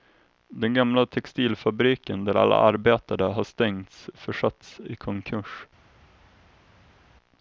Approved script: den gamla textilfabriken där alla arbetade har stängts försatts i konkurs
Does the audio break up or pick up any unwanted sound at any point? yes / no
no